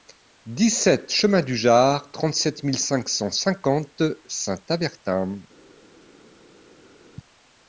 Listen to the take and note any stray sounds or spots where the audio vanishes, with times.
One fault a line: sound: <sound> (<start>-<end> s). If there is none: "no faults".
no faults